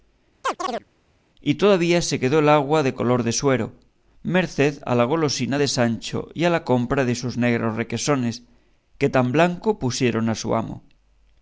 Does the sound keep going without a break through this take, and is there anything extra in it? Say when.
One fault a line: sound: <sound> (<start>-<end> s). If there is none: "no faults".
sound: chirp (0.4-0.8 s)